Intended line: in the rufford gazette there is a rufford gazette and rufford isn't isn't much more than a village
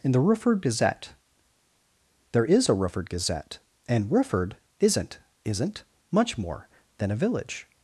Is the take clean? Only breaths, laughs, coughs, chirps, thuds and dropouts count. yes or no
yes